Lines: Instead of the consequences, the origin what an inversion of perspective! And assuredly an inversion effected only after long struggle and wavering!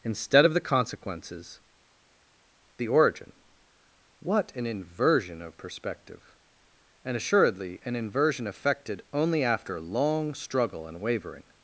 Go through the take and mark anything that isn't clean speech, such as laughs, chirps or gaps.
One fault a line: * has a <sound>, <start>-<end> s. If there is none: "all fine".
all fine